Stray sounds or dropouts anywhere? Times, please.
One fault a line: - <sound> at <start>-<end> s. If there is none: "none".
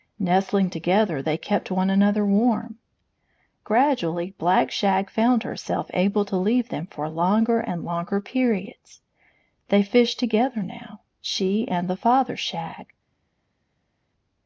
none